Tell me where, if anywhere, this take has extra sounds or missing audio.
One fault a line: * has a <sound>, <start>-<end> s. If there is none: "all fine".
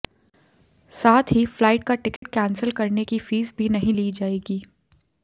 * has a dropout, 2.2-2.2 s